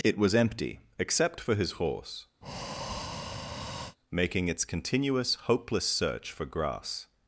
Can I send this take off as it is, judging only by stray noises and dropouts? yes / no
no